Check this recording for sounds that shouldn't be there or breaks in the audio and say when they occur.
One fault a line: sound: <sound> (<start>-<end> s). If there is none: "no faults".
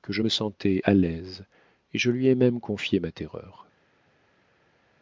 no faults